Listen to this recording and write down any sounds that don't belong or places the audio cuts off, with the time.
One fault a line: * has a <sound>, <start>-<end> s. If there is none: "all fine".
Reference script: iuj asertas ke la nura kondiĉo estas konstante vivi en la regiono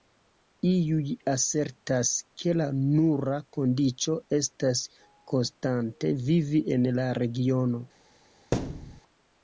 * has a thud, 8.5-9.0 s